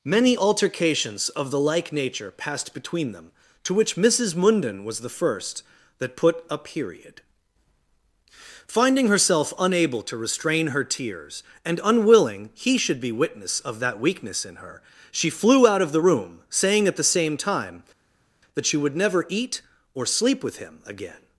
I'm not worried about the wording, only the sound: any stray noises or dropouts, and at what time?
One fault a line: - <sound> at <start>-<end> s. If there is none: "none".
none